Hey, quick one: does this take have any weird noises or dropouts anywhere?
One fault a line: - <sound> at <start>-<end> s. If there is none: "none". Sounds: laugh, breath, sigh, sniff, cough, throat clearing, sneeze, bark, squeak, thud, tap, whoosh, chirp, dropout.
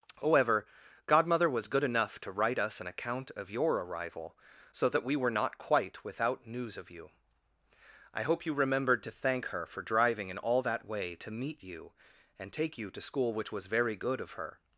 none